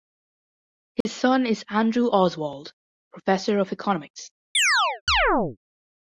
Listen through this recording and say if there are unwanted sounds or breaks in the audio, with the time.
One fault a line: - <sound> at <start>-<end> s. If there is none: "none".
- dropout at 1.0-1.1 s
- chirp at 4.5-5.6 s